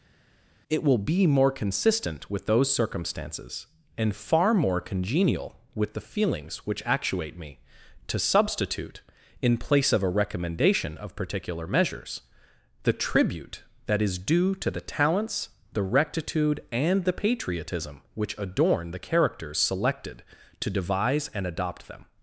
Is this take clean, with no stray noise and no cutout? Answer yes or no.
yes